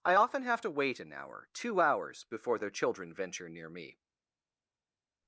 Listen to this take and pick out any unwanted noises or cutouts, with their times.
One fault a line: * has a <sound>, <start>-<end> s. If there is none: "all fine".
all fine